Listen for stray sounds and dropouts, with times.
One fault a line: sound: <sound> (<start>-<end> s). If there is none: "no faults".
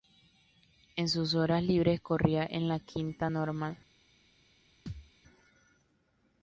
sound: thud (4.9-5.1 s)